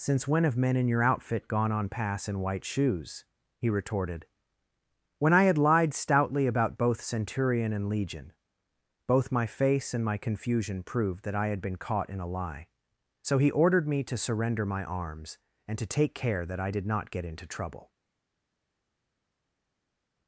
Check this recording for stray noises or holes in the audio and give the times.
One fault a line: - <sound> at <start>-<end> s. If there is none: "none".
none